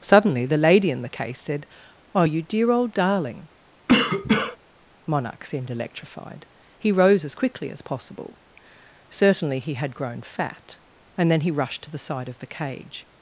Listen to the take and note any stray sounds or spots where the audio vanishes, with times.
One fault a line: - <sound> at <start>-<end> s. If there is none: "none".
- cough at 3.9-4.6 s